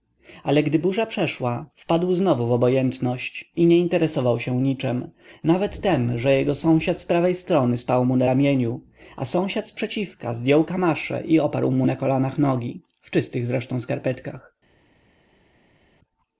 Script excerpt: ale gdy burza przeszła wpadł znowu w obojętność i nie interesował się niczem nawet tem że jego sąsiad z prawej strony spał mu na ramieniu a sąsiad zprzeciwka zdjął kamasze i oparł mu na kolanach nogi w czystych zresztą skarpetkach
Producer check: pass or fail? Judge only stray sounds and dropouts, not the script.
pass